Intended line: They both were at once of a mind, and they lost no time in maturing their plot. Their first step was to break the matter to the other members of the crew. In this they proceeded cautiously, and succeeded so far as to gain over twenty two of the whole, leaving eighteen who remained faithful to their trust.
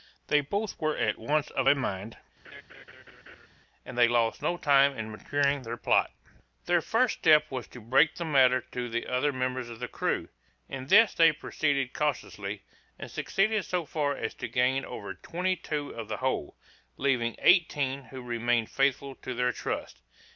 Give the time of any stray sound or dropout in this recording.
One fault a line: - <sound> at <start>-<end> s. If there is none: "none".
- laugh at 2.4-3.5 s